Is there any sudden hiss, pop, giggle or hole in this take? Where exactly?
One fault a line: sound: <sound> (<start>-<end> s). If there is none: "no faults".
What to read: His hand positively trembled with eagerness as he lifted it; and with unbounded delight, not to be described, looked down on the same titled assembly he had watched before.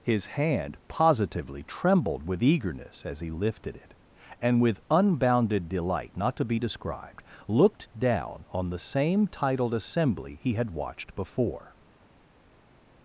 no faults